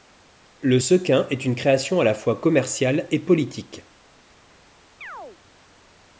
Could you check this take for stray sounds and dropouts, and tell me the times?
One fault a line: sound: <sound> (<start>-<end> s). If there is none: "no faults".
sound: chirp (5.0-5.4 s)